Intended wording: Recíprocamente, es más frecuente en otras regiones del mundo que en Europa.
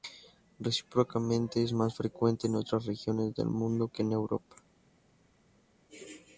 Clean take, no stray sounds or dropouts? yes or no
yes